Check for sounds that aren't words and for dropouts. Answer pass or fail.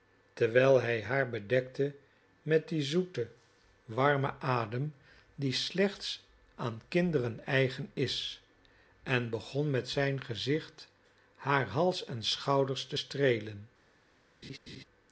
fail